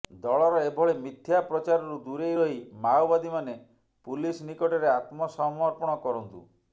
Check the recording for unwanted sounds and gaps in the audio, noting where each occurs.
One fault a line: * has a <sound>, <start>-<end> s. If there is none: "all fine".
all fine